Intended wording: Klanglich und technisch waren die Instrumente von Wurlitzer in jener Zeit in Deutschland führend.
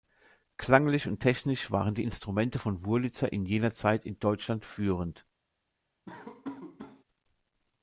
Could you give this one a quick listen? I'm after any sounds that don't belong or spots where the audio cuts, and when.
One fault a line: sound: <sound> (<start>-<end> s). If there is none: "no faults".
sound: laugh (6.1-7.0 s)